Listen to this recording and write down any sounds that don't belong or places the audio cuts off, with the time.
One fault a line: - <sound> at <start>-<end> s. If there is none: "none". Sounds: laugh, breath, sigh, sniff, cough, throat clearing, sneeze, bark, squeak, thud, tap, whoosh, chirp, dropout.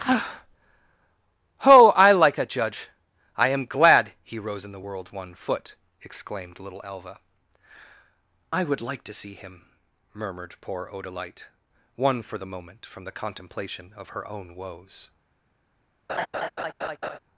- laugh at 16.1-17.2 s